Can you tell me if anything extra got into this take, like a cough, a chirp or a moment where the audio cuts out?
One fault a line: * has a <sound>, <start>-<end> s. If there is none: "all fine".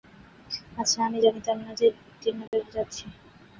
* has a dropout, 2.5-2.5 s